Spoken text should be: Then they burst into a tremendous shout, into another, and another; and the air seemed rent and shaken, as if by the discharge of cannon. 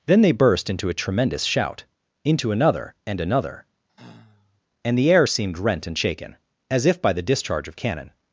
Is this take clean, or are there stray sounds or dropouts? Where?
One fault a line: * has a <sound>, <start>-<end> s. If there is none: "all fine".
* has a sigh, 3.9-4.6 s